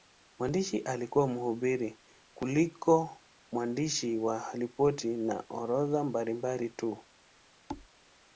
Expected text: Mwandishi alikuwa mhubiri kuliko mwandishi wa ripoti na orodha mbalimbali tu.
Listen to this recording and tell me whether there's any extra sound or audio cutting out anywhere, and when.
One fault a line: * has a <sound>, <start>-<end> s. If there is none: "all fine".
* has a thud, 7.7-7.9 s